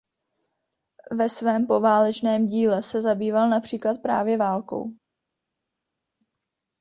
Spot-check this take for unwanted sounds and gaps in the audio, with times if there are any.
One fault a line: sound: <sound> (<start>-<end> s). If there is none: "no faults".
no faults